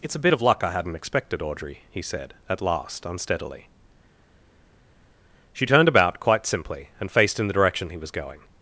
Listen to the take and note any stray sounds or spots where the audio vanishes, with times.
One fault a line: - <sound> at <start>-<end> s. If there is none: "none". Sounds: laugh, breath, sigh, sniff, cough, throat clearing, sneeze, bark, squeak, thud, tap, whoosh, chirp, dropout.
none